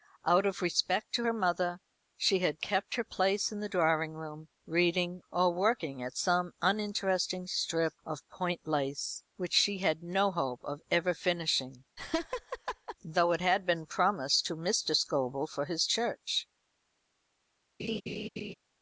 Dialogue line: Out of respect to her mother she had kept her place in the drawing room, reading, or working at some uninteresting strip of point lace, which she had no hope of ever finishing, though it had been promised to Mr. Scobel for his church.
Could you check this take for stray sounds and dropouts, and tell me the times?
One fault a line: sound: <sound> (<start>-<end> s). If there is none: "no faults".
sound: laugh (12.0-13.0 s)
sound: laugh (17.8-18.5 s)